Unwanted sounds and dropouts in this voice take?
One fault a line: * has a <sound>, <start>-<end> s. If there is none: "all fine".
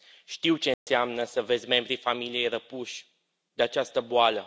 * has a dropout, 0.7-0.9 s